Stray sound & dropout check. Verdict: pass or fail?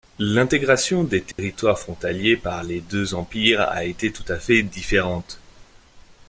fail